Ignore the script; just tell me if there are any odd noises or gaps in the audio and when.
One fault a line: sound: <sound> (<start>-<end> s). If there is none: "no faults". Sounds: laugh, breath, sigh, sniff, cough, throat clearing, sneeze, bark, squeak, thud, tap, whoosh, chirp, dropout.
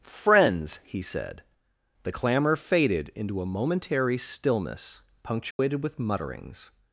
sound: dropout (5.5-5.6 s)